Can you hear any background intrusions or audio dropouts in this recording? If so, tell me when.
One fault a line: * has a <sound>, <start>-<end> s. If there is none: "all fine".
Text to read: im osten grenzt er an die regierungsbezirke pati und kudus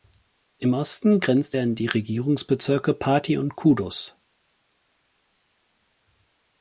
all fine